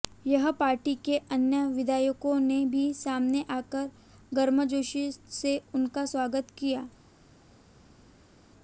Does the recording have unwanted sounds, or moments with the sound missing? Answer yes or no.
no